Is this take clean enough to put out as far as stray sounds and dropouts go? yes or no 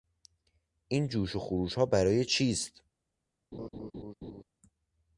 no